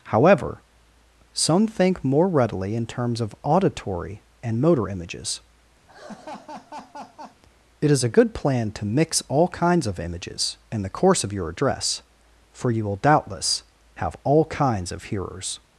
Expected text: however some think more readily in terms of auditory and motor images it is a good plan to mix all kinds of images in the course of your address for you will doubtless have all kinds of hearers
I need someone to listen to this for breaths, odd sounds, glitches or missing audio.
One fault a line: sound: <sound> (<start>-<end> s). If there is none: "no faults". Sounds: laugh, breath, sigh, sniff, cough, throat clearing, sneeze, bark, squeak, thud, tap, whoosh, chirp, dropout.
sound: laugh (5.9-7.4 s)